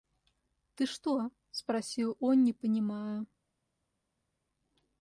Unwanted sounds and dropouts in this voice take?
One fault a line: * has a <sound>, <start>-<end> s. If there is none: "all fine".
all fine